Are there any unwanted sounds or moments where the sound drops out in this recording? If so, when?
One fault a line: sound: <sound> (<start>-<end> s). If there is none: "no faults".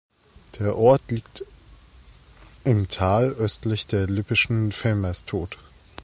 no faults